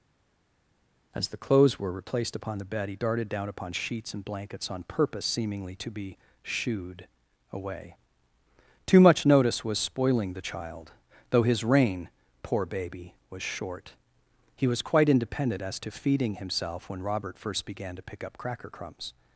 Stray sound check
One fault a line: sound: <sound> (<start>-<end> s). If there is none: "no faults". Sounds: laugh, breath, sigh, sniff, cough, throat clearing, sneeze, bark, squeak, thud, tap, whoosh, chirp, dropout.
no faults